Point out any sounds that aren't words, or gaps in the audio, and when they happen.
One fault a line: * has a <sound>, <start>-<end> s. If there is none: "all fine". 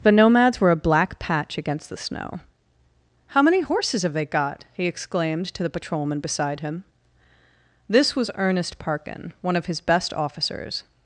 all fine